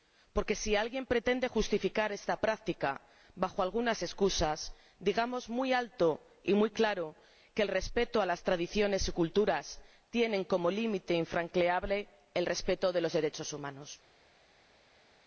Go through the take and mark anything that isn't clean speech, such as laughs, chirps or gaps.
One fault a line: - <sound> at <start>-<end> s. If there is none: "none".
none